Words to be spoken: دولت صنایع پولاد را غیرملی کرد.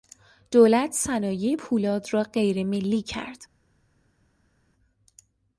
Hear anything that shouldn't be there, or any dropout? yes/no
no